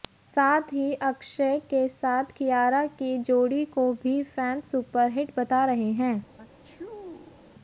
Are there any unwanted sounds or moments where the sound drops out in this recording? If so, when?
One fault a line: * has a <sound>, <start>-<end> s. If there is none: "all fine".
* has a sneeze, 6.4-7.5 s